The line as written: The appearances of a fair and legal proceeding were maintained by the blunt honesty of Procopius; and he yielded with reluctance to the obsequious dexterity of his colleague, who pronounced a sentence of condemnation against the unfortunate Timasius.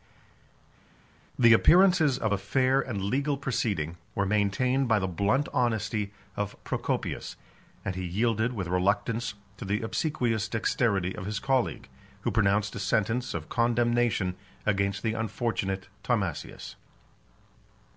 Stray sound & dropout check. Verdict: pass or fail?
pass